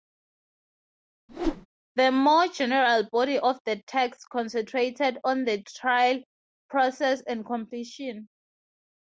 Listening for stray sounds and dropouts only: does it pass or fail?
fail